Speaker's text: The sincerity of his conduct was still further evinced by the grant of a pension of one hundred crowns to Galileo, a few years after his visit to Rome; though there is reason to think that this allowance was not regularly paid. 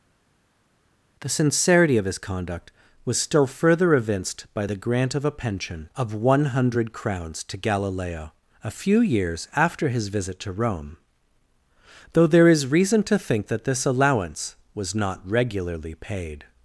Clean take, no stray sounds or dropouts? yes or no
yes